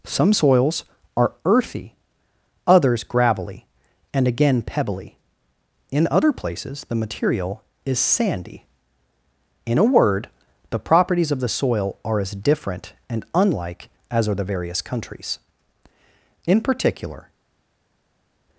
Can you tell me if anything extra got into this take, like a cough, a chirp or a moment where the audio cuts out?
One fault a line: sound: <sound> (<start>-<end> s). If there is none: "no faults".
no faults